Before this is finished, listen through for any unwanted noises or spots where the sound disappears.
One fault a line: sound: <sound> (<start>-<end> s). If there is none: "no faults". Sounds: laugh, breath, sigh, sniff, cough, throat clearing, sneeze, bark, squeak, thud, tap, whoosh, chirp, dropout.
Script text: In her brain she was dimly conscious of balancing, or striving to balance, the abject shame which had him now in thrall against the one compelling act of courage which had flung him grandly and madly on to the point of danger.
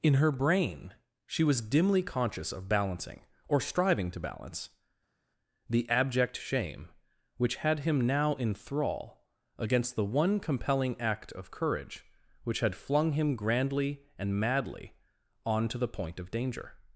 no faults